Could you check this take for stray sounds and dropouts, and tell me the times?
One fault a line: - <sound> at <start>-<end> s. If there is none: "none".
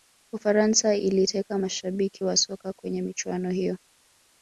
none